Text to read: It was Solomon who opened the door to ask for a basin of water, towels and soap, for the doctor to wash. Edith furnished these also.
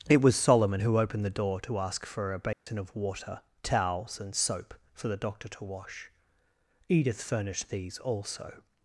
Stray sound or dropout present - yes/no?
yes